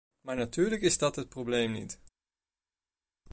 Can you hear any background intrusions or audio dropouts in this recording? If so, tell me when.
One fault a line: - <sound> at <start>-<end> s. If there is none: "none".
none